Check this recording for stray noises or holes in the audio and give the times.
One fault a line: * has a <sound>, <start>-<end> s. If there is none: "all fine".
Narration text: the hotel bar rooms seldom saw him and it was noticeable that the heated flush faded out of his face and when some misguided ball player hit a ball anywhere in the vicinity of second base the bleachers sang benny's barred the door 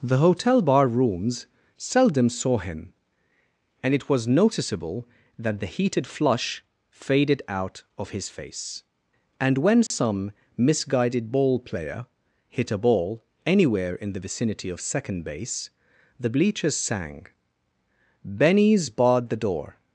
* has a dropout, 9.9-9.9 s